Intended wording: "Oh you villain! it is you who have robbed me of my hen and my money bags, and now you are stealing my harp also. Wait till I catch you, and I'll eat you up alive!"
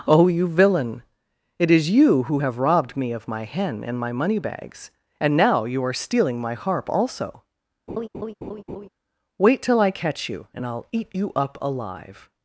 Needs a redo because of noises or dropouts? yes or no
yes